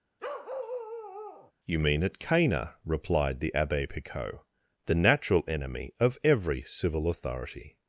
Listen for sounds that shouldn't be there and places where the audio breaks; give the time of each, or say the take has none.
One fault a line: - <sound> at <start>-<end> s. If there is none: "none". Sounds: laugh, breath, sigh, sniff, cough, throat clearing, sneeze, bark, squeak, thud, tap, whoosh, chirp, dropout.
- bark at 0.2-1.5 s